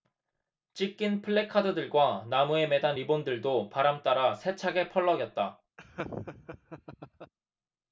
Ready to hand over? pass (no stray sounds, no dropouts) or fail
fail